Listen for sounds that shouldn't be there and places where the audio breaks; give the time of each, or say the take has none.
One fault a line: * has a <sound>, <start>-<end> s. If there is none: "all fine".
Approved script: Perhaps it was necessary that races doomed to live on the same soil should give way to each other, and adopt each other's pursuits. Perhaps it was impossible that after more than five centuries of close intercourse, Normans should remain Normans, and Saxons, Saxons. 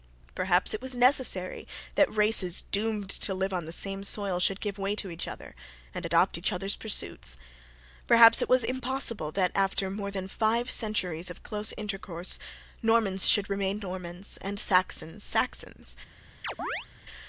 * has a chirp, 16.4-16.9 s